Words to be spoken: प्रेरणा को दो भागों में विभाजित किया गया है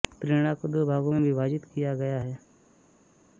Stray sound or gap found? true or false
false